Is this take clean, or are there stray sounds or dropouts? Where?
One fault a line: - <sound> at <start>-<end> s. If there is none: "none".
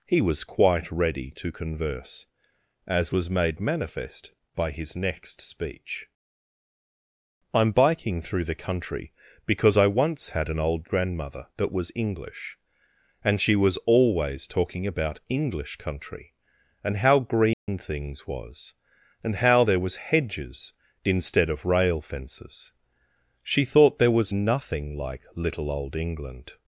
- dropout at 17.5-17.7 s